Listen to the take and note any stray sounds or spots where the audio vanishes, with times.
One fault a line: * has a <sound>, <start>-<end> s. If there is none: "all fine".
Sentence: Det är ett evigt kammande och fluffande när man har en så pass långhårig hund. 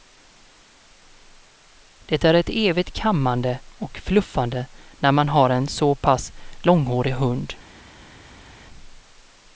all fine